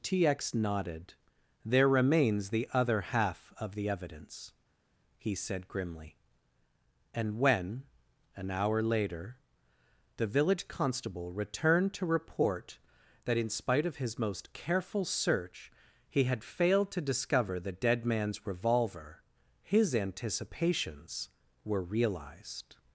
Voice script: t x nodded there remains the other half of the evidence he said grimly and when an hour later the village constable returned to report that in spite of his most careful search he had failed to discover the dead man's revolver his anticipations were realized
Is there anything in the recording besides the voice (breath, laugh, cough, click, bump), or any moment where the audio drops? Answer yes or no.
no